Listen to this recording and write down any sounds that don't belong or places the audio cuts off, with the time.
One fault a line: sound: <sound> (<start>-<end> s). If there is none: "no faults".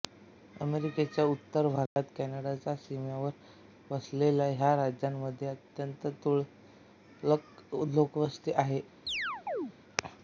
sound: dropout (1.9-2.0 s)
sound: chirp (9.1-9.7 s)